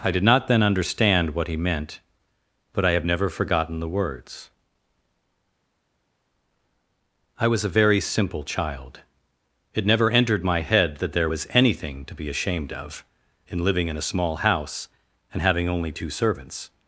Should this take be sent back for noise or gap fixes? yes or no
no